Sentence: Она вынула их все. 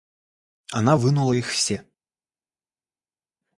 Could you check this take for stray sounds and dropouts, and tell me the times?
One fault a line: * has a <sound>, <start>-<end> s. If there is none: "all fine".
all fine